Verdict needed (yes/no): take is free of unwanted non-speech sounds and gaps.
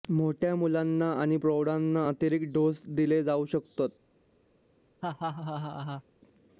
no